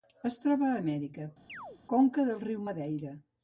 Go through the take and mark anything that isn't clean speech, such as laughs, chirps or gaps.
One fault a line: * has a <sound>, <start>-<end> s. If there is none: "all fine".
* has a chirp, 1.5-1.8 s